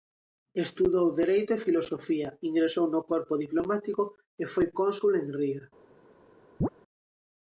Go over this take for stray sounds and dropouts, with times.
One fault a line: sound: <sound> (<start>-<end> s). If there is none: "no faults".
sound: chirp (6.6-6.7 s)